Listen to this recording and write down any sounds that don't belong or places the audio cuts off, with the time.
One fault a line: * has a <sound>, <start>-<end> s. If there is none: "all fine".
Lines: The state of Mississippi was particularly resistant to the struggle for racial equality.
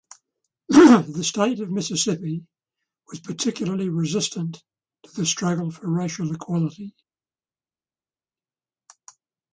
all fine